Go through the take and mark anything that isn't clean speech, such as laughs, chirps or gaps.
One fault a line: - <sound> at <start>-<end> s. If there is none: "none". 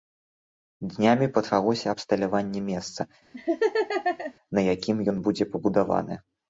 - laugh at 3.3-4.3 s